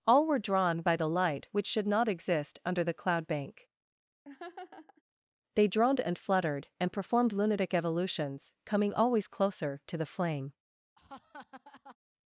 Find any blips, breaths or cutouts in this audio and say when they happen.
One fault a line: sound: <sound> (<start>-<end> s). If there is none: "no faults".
sound: laugh (4.2-5.0 s)
sound: laugh (10.9-12.0 s)